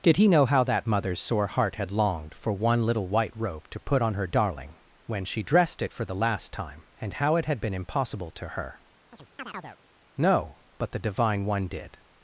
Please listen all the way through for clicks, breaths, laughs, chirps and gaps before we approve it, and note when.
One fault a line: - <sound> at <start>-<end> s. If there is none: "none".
- chirp at 9.1-9.8 s